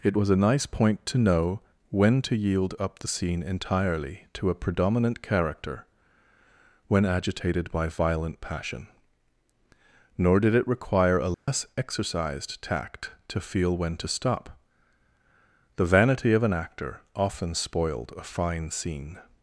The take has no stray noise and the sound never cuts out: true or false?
false